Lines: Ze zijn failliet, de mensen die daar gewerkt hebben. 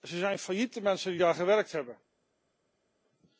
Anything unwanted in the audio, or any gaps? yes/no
no